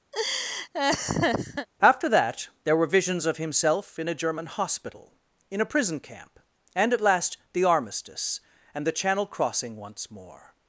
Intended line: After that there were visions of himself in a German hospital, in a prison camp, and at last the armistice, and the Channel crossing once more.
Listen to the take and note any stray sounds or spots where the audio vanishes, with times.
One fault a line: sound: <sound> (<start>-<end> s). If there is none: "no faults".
sound: laugh (0.1-1.7 s)